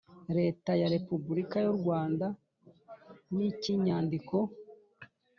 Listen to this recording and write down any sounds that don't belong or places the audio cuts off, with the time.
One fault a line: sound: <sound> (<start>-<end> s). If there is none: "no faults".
no faults